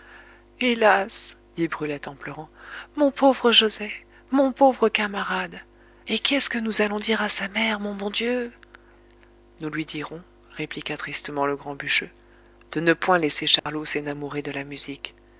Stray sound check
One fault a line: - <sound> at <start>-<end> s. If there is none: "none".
- dropout at 13.6-13.7 s